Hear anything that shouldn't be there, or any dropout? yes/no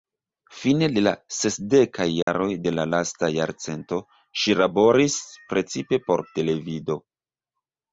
yes